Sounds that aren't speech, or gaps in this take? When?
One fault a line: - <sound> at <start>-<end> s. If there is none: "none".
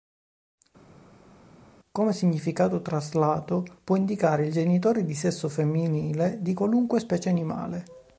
none